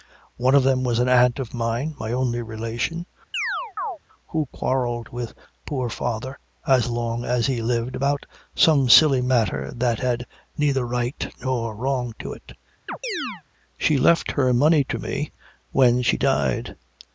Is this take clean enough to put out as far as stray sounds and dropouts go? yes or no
no